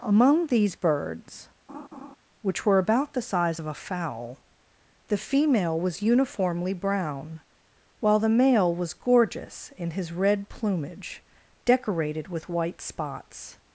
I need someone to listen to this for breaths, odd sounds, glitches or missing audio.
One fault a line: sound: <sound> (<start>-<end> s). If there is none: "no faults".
sound: laugh (1.7-2.2 s)